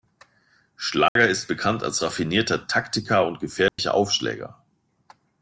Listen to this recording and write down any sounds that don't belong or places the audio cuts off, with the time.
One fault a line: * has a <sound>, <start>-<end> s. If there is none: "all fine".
* has a dropout, 1.1-1.2 s
* has a dropout, 3.7-3.8 s